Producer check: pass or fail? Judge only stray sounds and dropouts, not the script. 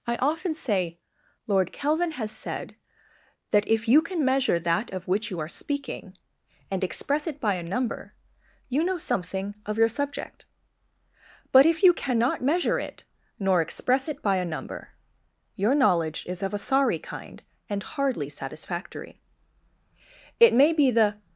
pass